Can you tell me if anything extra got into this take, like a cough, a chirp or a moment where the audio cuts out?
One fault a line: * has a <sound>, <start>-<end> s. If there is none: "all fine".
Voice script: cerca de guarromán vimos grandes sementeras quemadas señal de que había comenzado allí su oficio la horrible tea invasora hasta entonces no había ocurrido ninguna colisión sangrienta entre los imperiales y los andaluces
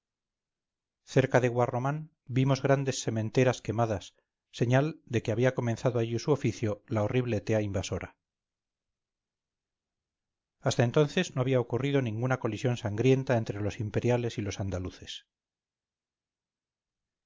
all fine